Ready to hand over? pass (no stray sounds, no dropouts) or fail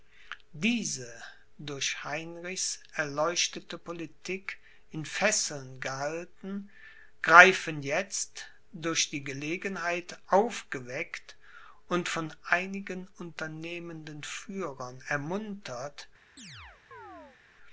fail